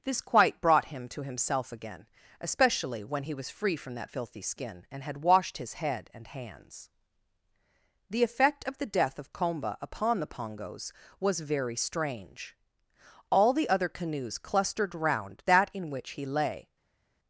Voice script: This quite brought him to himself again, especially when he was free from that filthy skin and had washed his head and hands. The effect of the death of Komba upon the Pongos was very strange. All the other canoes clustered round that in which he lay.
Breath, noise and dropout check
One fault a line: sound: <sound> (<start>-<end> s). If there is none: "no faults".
no faults